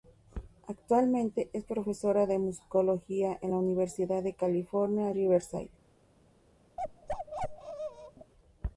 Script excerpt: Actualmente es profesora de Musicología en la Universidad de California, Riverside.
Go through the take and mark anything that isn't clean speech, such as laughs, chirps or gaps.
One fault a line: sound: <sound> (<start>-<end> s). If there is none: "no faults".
sound: bark (6.8-8.3 s)